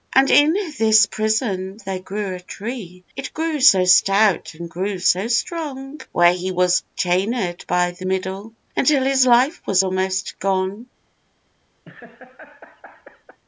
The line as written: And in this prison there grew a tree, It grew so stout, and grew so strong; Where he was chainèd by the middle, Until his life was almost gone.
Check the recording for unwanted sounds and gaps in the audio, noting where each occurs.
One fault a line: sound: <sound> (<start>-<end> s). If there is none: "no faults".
sound: laugh (11.8-13.4 s)